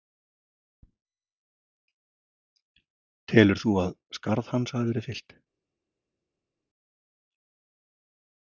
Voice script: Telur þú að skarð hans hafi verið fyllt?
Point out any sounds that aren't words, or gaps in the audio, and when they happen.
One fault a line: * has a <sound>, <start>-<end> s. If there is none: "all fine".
all fine